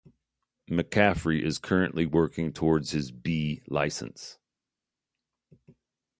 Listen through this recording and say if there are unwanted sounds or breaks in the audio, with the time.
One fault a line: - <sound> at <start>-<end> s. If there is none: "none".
none